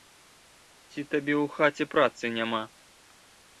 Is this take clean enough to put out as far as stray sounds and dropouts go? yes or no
yes